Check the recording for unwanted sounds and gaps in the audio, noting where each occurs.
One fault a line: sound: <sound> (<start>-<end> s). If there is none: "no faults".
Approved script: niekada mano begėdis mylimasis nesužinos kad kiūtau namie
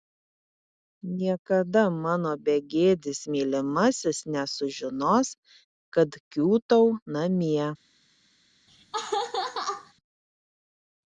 sound: laugh (8.7-9.9 s)